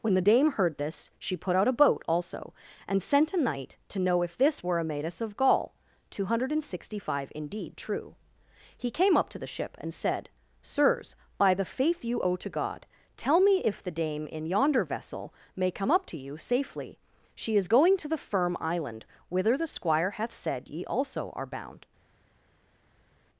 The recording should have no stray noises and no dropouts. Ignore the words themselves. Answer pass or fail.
pass